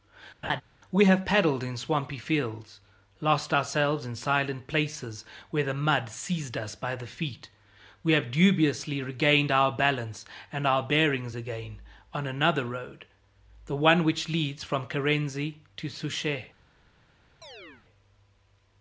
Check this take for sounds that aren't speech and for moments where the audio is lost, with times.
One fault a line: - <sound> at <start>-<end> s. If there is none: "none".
- laugh at 0.4-0.6 s
- chirp at 17.4-17.8 s